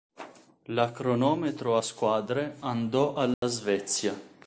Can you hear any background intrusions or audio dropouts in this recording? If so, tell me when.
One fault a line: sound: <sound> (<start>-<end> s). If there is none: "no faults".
sound: dropout (3.3-3.4 s)